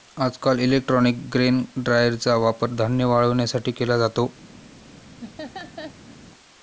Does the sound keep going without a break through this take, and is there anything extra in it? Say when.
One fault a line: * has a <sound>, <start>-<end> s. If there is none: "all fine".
* has a laugh, 5.2-6.2 s